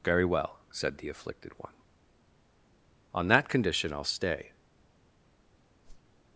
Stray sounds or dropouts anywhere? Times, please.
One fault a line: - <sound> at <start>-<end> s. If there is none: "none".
- whoosh at 5.8-6.2 s